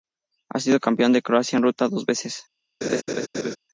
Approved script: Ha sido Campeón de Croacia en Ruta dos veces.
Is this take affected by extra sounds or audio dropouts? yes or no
yes